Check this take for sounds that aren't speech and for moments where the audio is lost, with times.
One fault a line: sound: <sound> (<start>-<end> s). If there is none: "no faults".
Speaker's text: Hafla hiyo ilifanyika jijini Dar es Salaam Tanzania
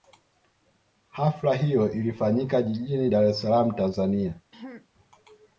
sound: throat clearing (4.5-4.9 s)